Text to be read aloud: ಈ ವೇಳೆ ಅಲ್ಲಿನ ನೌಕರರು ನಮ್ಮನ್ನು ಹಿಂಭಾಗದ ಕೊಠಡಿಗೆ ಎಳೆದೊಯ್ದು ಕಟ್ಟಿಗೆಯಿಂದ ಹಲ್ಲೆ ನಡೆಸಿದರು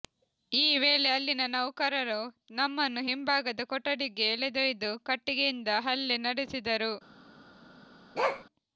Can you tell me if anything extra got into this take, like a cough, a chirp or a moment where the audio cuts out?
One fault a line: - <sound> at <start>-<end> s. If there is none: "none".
- bark at 8.1-8.4 s